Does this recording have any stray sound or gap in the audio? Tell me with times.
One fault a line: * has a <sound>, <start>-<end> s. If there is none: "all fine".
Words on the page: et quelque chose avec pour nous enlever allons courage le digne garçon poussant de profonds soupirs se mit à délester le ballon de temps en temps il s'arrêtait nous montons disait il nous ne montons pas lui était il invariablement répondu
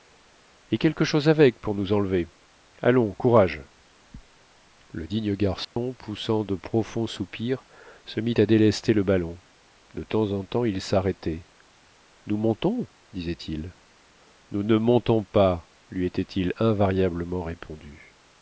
* has a dropout, 5.6-5.8 s